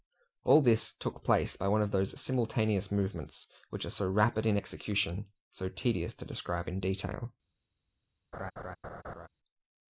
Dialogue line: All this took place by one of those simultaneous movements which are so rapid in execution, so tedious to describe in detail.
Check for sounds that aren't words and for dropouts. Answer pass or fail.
fail